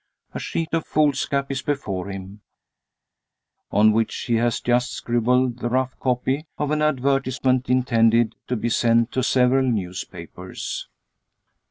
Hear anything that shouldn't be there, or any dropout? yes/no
no